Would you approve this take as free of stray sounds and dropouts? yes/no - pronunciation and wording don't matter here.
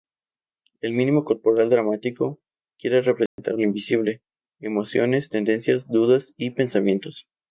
no